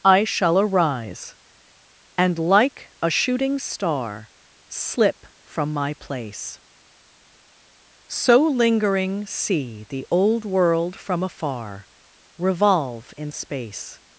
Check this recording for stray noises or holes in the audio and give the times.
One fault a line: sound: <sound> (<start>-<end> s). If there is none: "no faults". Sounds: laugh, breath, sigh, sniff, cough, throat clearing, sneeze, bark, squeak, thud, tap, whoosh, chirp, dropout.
no faults